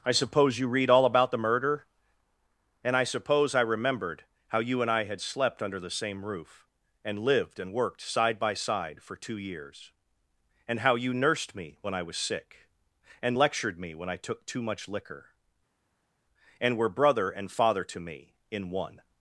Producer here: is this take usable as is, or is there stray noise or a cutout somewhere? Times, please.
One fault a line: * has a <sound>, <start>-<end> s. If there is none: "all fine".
all fine